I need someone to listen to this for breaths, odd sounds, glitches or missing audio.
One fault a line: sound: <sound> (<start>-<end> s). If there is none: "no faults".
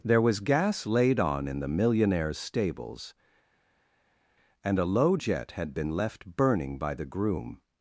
no faults